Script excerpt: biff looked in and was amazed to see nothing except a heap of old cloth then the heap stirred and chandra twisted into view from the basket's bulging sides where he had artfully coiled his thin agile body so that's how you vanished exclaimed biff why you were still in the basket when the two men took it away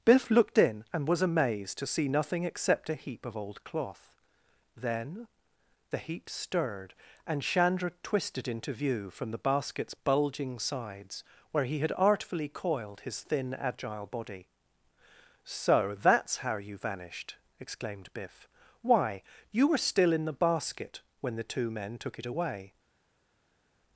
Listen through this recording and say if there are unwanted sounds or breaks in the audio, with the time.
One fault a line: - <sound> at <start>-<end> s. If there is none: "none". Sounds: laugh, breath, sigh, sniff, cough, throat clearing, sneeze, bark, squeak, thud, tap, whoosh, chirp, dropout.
none